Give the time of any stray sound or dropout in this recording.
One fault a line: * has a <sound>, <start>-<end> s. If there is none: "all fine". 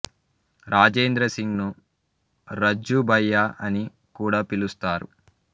all fine